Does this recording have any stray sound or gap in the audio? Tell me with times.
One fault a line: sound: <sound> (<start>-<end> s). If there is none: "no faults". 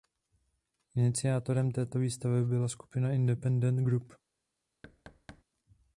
sound: thud (4.8-5.4 s)